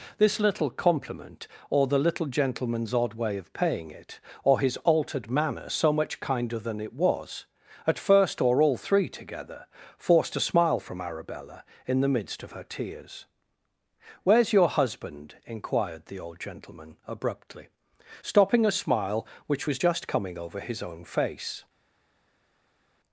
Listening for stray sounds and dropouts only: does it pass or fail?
pass